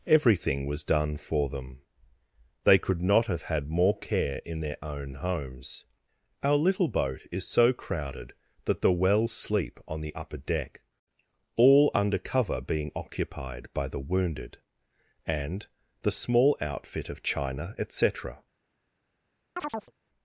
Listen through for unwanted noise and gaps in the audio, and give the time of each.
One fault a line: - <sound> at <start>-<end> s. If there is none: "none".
- chirp at 19.6-19.9 s